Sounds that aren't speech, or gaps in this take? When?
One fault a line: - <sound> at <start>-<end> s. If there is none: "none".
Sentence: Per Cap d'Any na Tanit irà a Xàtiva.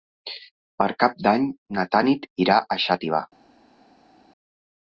none